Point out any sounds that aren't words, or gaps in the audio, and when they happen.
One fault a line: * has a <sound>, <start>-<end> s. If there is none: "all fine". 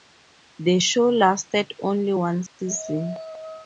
* has a dropout, 2.5-2.6 s